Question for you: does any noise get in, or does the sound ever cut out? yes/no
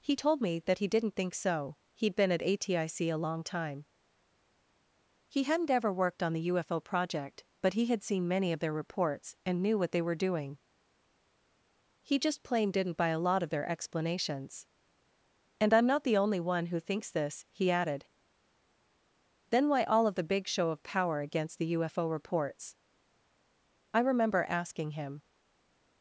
no